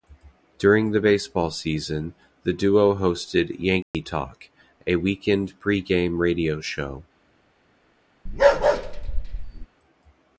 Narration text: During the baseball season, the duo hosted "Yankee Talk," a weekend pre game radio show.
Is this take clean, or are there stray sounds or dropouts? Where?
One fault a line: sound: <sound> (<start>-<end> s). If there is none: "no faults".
sound: dropout (3.8-3.9 s)
sound: bark (8.3-9.7 s)